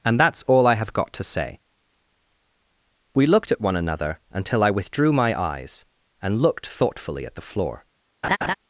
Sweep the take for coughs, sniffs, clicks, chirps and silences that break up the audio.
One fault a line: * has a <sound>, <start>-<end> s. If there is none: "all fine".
* has a laugh, 8.2-8.5 s